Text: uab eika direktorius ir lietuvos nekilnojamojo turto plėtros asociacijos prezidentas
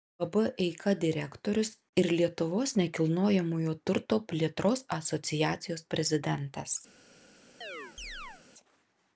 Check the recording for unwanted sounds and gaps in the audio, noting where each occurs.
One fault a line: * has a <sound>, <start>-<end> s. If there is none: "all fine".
* has a chirp, 7.6-8.4 s